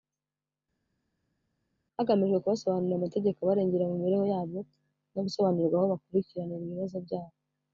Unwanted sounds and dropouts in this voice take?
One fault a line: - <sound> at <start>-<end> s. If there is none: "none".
none